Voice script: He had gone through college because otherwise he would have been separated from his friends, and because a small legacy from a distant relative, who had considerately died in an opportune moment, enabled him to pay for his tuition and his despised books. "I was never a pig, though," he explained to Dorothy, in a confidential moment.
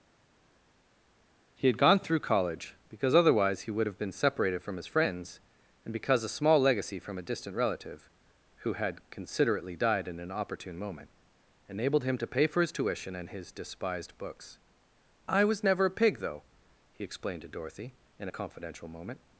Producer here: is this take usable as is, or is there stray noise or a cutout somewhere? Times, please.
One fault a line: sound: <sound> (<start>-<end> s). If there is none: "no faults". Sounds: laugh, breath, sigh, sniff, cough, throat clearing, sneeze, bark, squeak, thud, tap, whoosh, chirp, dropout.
no faults